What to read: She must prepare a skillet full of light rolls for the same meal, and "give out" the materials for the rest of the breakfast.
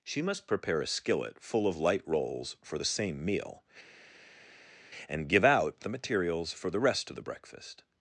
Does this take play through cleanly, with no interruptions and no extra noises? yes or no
yes